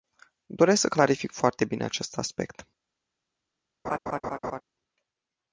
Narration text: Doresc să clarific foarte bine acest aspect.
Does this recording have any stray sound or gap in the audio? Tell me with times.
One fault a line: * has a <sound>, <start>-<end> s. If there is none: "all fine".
* has a laugh, 3.8-4.6 s